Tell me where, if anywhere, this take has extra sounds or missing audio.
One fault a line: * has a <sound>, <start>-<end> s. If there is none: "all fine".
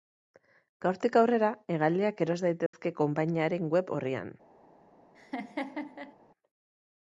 * has a dropout, 2.7-2.7 s
* has a laugh, 5.1-6.1 s